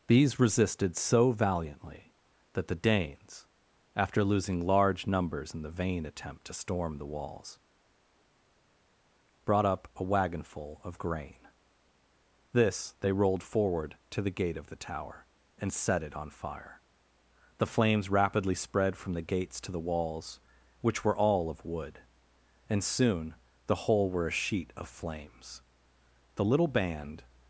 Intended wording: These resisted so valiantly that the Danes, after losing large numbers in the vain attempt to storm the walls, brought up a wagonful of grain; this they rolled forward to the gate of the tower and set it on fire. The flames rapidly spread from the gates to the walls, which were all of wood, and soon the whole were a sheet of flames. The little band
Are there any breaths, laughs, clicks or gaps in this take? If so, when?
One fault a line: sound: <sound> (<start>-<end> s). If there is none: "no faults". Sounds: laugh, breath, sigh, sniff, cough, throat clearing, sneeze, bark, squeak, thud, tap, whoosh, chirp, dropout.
no faults